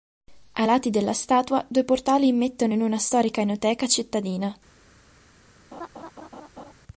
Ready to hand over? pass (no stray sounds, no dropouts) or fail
fail